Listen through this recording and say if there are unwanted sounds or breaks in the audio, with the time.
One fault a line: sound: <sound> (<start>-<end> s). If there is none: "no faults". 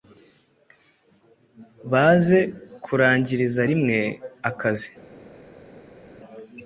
no faults